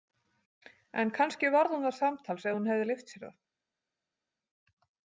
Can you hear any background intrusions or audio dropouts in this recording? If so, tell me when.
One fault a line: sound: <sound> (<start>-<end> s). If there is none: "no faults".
no faults